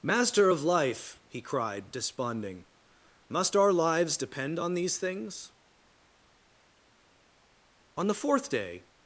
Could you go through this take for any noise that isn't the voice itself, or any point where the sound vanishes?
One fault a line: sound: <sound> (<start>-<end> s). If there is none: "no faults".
no faults